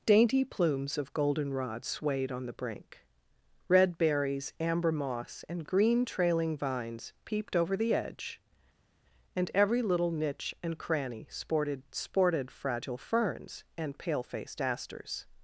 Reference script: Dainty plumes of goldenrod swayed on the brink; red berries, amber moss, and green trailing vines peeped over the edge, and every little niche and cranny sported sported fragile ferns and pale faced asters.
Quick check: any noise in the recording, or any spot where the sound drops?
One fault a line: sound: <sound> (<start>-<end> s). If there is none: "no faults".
no faults